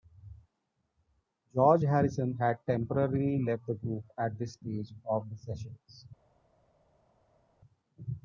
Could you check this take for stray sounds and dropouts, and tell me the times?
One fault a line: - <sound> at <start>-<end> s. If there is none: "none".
none